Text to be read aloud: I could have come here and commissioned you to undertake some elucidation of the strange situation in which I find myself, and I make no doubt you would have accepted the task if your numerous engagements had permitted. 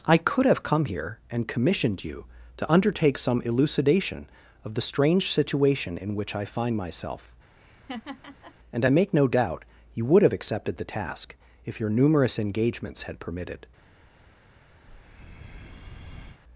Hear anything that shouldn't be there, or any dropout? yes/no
yes